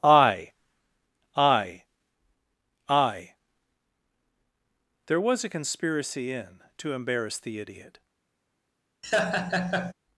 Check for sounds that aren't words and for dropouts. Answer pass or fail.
fail